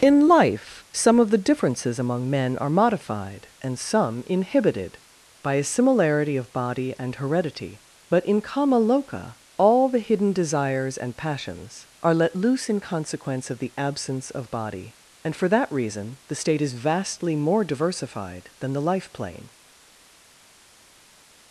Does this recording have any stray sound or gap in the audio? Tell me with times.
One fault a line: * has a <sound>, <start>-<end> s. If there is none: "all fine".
all fine